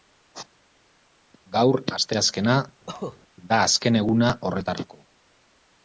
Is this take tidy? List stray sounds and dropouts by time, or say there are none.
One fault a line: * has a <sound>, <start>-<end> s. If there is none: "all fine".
* has a cough, 2.9-3.2 s